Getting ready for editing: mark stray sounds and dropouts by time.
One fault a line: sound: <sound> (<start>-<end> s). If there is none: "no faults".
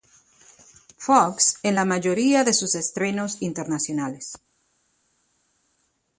no faults